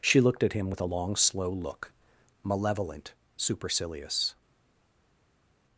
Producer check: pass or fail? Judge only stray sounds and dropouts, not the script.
pass